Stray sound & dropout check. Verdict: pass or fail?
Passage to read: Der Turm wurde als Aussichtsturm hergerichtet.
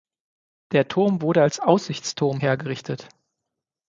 pass